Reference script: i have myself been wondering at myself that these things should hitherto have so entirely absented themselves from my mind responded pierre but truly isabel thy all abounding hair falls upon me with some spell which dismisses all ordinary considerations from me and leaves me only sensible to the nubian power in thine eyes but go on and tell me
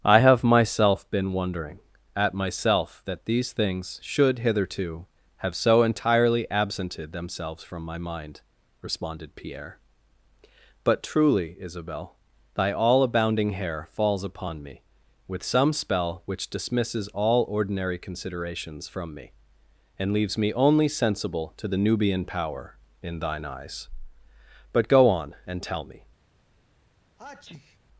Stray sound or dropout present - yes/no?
yes